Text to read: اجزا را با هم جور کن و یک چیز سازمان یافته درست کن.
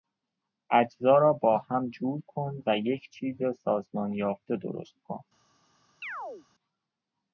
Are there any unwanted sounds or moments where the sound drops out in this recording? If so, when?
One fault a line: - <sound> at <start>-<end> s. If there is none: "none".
- chirp at 6.0-6.5 s